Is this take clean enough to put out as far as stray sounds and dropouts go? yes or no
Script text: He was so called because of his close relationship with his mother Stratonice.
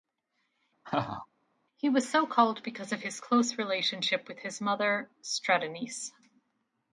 no